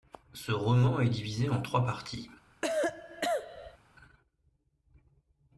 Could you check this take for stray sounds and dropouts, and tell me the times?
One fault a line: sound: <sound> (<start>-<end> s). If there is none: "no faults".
sound: cough (2.6-3.8 s)